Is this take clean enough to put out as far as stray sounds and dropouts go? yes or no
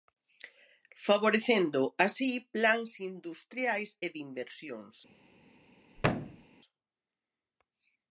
no